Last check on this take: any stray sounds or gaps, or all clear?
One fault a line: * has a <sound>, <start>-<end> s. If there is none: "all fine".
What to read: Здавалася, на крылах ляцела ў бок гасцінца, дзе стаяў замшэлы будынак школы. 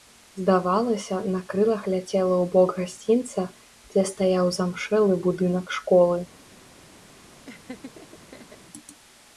* has a laugh, 7.5-8.6 s